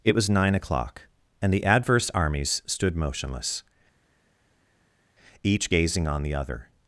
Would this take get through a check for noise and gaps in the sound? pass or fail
pass